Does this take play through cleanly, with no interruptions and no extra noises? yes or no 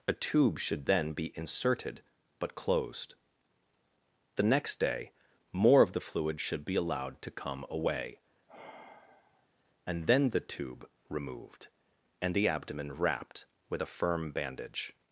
no